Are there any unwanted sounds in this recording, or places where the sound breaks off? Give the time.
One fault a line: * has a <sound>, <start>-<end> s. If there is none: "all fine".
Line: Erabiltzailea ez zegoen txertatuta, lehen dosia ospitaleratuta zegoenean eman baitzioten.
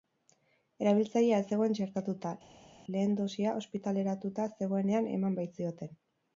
all fine